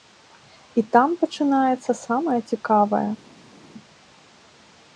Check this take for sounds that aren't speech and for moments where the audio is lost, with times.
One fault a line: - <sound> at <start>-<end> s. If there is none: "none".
none